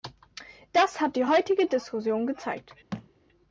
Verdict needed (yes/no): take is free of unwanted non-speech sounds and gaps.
no